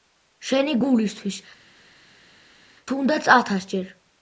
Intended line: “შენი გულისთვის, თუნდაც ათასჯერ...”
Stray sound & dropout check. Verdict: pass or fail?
pass